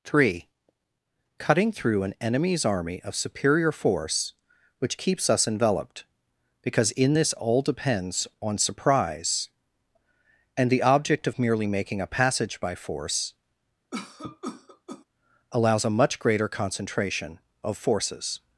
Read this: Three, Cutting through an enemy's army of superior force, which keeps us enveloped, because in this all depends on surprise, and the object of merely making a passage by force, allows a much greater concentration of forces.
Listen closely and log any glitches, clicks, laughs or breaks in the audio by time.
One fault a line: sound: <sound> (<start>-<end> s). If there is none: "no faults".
sound: cough (13.9-15.0 s)